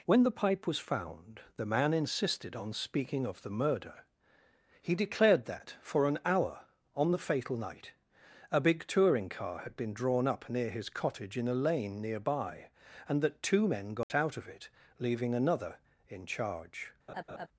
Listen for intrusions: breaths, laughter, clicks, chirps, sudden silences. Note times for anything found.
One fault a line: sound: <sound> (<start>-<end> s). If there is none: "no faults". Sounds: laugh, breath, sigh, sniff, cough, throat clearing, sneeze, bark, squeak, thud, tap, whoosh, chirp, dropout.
sound: dropout (14.0-14.1 s)
sound: laugh (17.1-17.5 s)